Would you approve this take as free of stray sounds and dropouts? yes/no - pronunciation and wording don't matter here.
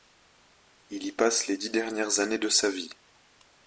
yes